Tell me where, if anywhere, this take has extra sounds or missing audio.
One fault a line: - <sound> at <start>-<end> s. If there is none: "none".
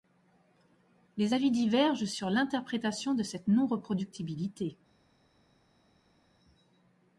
none